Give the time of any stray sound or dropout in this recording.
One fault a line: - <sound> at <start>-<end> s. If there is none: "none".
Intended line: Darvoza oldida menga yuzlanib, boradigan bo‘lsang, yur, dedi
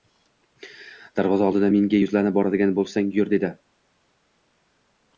none